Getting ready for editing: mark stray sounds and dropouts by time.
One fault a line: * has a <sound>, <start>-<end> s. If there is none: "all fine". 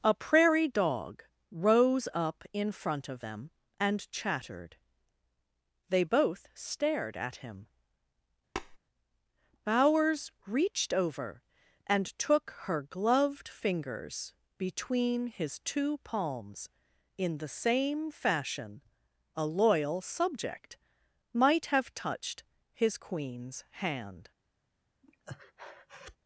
* has a tap, 8.6-8.8 s
* has a breath, 25.0-26.2 s